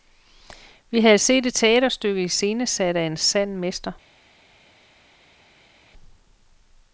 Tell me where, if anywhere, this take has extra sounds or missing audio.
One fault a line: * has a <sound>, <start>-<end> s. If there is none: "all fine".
all fine